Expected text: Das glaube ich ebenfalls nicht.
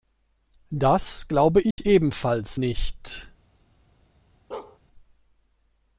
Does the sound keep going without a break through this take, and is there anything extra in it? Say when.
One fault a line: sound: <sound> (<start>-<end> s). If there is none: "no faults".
sound: dropout (1.7-1.8 s)
sound: bark (4.5-4.8 s)